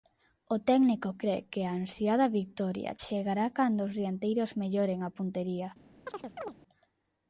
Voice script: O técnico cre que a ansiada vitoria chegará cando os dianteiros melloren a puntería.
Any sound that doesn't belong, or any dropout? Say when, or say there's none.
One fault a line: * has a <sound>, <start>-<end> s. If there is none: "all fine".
* has a chirp, 6.1-6.6 s